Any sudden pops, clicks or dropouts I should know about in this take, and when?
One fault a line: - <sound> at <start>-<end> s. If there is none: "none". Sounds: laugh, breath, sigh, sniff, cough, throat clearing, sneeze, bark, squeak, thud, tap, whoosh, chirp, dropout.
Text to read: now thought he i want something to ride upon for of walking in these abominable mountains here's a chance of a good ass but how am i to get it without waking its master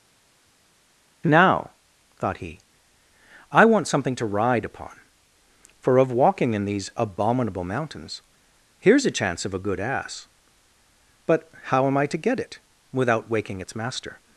none